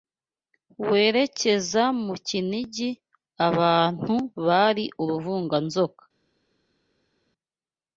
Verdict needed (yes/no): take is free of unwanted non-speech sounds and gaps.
yes